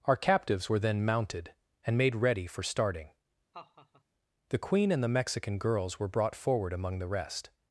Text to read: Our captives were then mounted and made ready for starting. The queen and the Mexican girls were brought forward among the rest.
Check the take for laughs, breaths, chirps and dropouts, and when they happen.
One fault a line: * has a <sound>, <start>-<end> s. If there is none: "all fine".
* has a laugh, 3.5-4.0 s